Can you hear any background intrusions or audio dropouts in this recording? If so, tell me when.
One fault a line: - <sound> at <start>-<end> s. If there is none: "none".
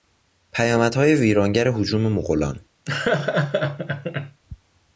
- laugh at 2.9-4.4 s